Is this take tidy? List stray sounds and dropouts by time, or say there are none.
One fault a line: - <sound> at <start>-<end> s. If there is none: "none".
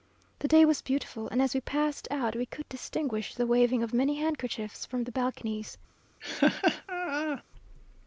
- laugh at 6.2-7.4 s